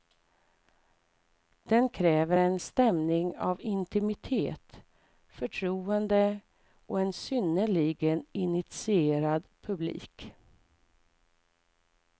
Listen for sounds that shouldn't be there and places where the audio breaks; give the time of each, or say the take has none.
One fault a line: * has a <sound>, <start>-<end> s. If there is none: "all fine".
all fine